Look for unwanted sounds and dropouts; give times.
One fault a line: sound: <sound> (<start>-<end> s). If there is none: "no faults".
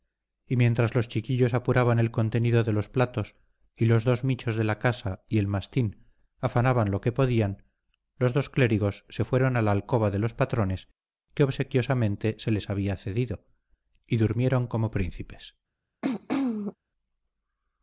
sound: throat clearing (16.0-16.8 s)